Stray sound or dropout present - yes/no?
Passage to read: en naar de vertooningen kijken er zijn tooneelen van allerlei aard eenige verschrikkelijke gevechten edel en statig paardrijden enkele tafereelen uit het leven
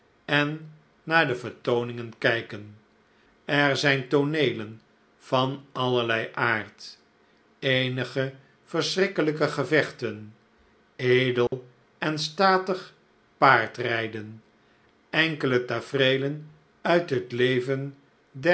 yes